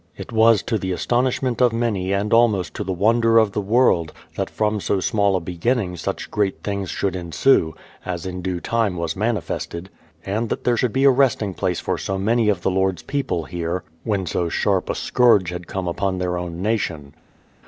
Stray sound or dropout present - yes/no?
no